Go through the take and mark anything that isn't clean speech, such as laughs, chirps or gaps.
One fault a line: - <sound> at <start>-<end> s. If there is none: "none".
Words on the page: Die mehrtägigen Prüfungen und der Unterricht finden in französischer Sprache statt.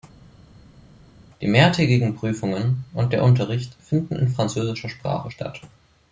none